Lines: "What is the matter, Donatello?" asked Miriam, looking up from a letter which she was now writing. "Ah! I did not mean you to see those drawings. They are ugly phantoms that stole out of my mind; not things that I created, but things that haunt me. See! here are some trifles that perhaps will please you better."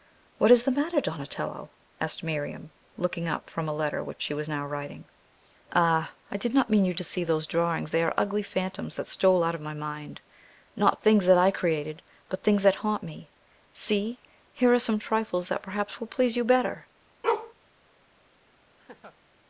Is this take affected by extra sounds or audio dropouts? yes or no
yes